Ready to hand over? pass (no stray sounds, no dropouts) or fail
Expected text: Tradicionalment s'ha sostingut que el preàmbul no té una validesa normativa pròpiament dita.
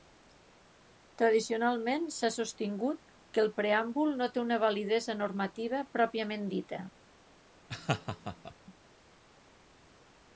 fail